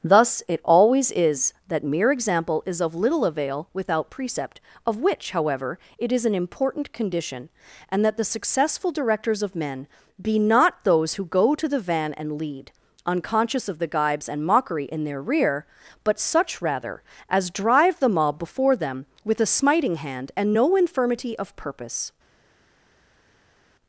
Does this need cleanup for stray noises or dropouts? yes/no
no